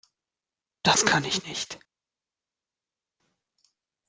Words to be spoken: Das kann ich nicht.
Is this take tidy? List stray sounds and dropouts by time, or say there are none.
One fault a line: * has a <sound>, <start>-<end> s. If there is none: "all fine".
all fine